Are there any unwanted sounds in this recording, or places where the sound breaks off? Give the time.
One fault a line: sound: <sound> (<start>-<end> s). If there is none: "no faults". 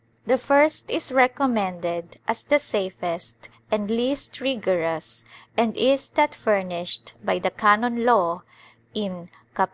no faults